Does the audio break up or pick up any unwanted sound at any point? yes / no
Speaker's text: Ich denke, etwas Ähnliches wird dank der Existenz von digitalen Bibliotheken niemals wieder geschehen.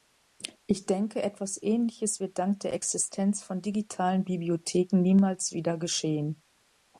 no